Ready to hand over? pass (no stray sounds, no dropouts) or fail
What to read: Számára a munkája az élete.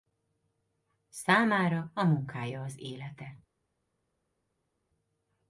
pass